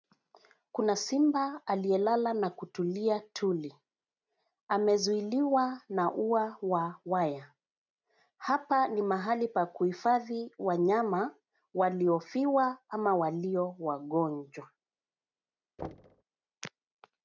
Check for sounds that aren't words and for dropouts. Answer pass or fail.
fail